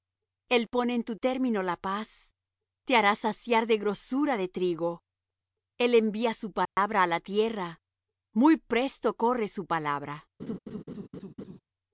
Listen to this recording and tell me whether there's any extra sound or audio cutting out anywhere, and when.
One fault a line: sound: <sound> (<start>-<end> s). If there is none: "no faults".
sound: dropout (6.7-6.8 s)
sound: laugh (10.4-11.6 s)